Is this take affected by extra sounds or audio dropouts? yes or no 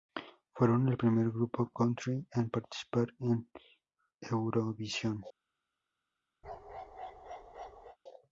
yes